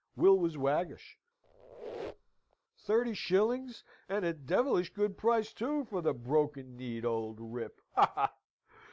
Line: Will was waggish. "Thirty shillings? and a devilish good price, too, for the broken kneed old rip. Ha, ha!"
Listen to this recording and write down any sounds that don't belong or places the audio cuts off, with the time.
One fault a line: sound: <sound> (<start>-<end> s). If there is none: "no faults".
sound: squeak (1.4-2.6 s)